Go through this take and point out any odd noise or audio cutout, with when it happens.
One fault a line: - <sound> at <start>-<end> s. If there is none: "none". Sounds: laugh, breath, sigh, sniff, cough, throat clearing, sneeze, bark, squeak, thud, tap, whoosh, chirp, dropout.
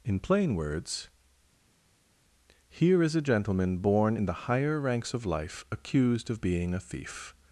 none